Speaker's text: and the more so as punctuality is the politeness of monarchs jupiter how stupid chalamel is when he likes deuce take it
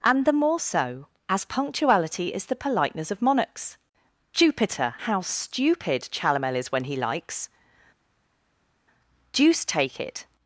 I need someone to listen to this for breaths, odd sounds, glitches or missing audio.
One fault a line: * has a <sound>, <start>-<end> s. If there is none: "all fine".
all fine